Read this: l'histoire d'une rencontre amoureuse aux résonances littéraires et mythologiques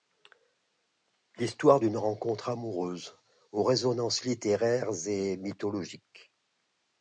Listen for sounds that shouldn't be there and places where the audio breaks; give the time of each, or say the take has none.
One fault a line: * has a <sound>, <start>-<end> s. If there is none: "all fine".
all fine